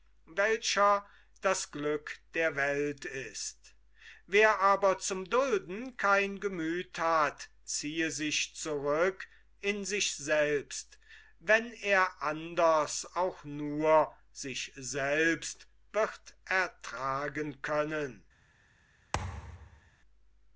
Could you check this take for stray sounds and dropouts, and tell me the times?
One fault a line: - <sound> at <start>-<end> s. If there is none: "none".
- thud at 19.1-19.9 s